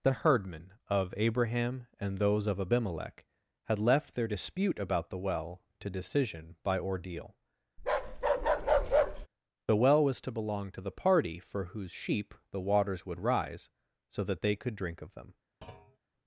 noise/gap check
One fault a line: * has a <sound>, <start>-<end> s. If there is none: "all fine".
* has a bark, 7.8-9.3 s
* has a thud, 15.6-16.0 s